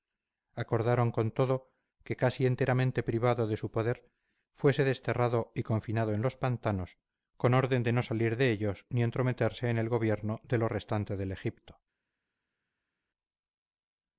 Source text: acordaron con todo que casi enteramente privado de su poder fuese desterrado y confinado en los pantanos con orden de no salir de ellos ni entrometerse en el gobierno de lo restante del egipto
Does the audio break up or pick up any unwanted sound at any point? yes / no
no